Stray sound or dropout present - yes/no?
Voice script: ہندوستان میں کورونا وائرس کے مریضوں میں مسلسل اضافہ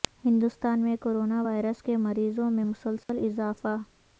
yes